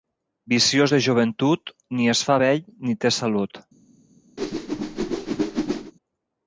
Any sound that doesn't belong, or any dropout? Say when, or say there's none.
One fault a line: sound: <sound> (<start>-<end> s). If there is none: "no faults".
sound: whoosh (4.4-5.9 s)